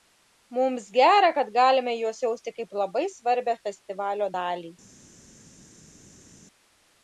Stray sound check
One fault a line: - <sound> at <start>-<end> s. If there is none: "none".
none